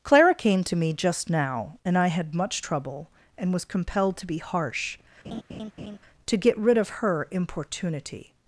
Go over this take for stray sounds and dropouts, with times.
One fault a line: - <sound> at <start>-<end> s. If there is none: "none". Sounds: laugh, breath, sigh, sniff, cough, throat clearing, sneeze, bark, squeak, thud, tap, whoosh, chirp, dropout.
- laugh at 5.2-6.0 s